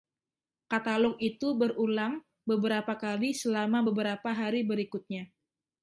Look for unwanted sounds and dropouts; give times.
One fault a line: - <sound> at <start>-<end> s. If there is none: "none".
none